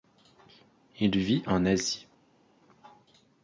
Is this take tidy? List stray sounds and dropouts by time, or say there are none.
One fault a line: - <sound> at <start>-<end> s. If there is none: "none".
none